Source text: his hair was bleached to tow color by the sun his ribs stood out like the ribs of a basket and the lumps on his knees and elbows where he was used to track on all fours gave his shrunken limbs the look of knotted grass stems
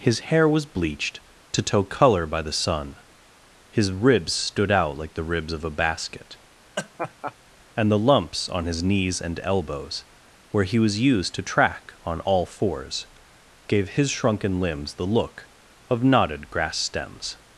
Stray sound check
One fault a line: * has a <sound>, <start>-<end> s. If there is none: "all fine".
* has a laugh, 6.8-7.3 s